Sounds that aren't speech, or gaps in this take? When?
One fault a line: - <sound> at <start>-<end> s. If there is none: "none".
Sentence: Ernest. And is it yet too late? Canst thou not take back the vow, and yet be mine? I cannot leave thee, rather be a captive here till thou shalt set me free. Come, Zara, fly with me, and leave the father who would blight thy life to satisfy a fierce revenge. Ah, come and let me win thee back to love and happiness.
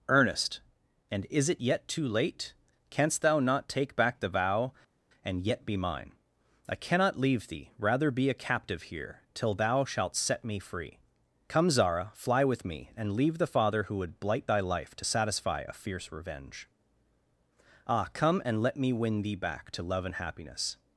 none